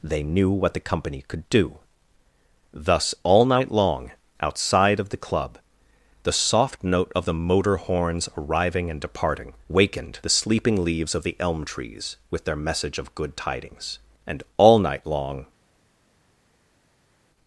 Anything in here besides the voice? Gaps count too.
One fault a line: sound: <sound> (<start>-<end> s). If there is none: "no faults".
no faults